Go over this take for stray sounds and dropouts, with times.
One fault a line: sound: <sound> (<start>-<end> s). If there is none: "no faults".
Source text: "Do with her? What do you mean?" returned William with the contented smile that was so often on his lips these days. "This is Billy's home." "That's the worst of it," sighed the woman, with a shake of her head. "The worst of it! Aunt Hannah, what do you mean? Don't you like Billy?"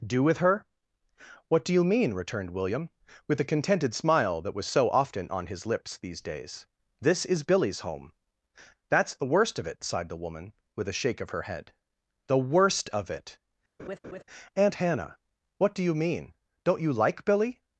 sound: laugh (13.8-14.2 s)